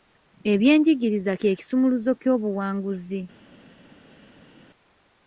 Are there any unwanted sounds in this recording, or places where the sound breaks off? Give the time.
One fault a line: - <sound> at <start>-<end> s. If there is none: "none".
none